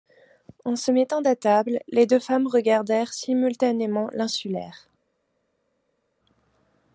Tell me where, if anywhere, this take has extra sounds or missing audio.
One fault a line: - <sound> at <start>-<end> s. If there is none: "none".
none